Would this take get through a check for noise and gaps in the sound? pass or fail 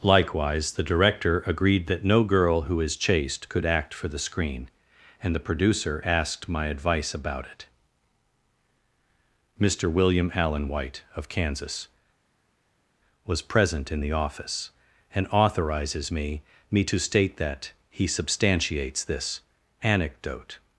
pass